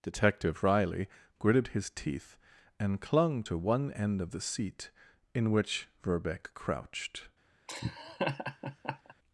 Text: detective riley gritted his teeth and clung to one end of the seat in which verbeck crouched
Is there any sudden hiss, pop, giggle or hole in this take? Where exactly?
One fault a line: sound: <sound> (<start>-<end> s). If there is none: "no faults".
sound: laugh (7.7-9.1 s)